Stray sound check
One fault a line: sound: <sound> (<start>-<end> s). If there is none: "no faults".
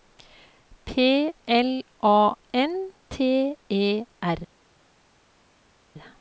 no faults